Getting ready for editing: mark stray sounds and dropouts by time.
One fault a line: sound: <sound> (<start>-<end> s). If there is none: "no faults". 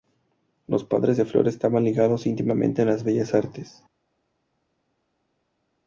no faults